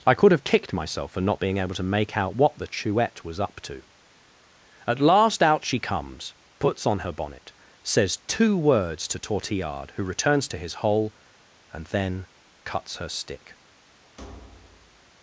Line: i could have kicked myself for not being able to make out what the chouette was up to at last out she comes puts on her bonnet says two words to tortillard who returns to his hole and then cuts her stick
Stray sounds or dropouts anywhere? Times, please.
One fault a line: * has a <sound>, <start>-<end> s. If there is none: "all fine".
* has a thud, 14.2-15.1 s